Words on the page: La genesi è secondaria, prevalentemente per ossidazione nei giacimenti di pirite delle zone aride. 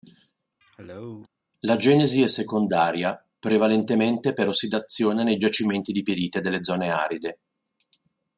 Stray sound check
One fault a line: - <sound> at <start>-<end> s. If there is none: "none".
- cough at 0.6-1.3 s